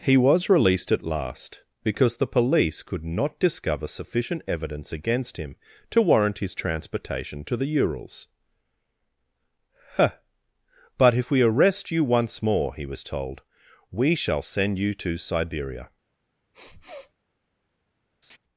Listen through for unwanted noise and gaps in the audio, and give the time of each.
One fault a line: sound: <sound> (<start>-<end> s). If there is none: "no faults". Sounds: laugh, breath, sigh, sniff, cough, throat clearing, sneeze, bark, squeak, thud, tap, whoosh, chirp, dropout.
sound: sniff (16.5-17.1 s)
sound: laugh (18.2-18.4 s)